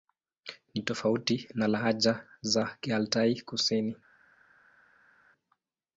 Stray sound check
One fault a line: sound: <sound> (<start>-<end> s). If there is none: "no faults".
no faults